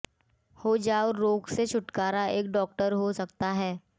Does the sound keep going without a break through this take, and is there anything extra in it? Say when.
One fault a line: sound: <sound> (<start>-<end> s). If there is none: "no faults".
no faults